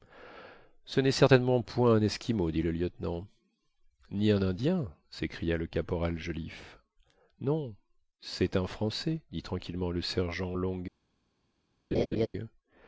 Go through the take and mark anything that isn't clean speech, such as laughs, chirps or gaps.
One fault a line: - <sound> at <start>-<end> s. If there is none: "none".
- laugh at 11.9-12.3 s